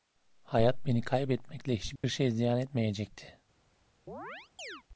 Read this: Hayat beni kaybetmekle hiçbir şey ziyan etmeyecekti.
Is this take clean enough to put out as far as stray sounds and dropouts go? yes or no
no